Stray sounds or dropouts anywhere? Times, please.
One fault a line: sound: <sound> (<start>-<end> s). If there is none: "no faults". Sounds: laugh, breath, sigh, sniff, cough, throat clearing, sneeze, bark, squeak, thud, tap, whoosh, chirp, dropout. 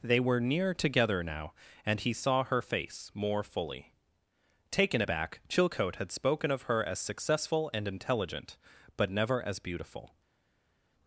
no faults